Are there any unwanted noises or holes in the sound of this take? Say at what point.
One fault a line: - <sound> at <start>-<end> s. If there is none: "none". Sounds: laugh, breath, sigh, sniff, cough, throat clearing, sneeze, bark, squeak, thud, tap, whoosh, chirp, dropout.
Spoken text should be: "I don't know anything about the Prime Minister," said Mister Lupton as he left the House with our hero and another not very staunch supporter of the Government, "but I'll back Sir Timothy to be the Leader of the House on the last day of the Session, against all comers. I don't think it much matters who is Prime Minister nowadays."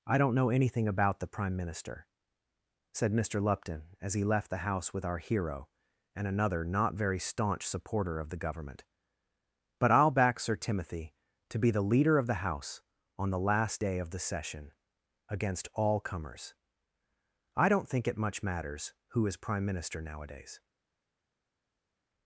none